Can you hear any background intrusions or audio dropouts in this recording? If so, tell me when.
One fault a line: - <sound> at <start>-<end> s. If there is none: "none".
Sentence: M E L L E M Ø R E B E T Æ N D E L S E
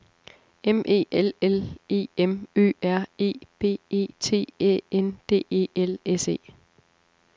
none